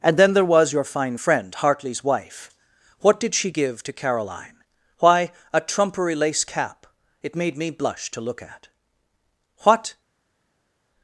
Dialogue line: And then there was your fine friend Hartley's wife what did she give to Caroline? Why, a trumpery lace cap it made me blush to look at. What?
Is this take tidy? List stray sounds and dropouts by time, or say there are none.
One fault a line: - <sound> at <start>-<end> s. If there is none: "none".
none